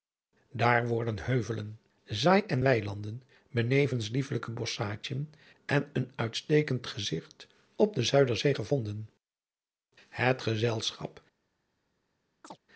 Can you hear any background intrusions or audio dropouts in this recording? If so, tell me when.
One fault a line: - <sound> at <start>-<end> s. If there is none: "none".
- chirp at 12.4-12.6 s